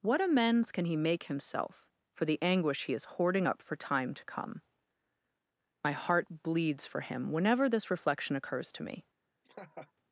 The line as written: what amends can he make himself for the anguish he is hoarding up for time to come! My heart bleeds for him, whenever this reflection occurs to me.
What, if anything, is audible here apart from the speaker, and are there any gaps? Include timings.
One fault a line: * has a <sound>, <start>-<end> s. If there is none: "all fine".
* has a laugh, 9.4-9.9 s